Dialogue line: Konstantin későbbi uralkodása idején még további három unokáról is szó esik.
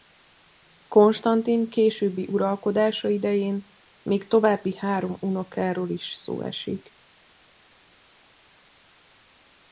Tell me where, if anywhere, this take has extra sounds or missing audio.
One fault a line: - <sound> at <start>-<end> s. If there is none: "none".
none